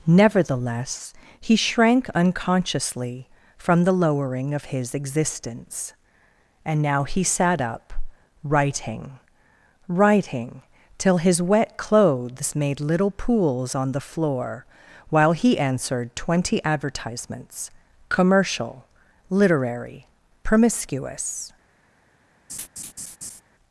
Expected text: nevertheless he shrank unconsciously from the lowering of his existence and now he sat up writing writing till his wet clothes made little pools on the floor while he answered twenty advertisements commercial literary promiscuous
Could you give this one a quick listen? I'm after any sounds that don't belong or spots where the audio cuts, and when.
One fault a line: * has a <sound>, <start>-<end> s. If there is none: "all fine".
* has a laugh, 22.5-23.4 s